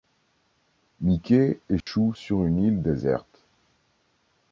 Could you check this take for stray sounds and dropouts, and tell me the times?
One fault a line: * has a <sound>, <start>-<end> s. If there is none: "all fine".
* has a dropout, 1.8-1.9 s